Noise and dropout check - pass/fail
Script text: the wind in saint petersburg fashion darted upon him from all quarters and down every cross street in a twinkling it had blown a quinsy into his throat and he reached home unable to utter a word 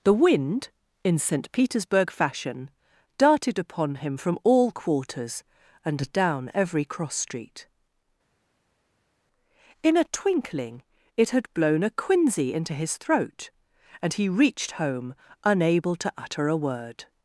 pass